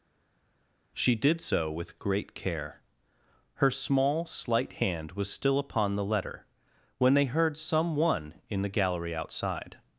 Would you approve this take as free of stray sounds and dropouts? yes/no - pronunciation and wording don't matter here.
yes